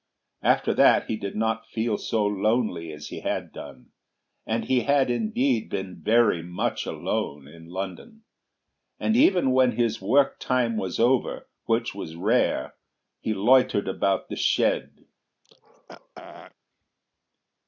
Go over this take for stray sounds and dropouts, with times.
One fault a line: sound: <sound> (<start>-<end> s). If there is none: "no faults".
sound: throat clearing (15.4-16.5 s)